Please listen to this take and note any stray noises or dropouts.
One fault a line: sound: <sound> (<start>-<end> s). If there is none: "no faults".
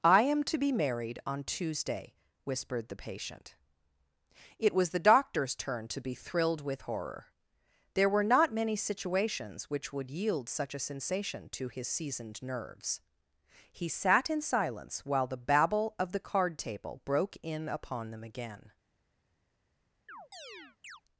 sound: chirp (20.1-21.0 s)